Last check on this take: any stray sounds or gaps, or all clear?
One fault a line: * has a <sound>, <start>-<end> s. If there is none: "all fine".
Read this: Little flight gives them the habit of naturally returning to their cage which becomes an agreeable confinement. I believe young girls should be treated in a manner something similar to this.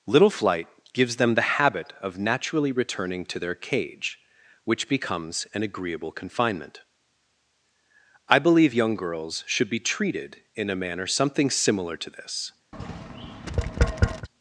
* has a tap, 12.7-14.3 s